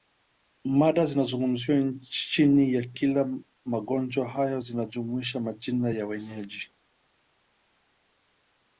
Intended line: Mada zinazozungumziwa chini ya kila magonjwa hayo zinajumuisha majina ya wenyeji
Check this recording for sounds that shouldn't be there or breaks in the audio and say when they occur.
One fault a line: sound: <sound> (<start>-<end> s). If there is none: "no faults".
no faults